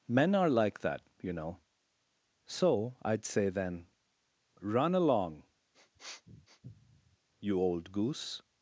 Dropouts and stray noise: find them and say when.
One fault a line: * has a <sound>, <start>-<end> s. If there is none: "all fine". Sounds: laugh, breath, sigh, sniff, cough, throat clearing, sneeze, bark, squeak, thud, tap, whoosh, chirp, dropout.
* has a sniff, 5.7-7.2 s